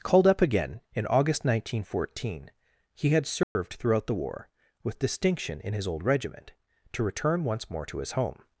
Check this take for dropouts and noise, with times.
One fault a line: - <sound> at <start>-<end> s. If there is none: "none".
- dropout at 3.4-3.6 s